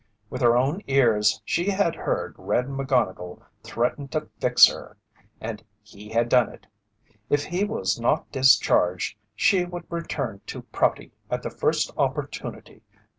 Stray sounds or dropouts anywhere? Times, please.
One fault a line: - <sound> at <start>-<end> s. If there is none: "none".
none